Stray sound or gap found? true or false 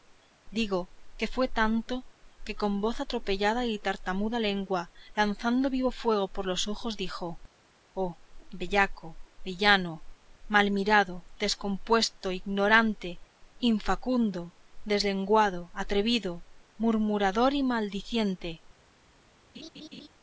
true